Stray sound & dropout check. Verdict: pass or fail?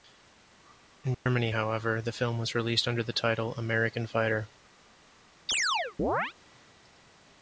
fail